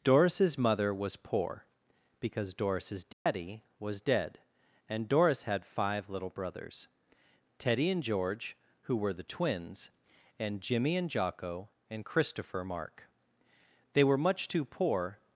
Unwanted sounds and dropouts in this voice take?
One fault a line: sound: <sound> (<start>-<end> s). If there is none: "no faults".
sound: dropout (3.1-3.3 s)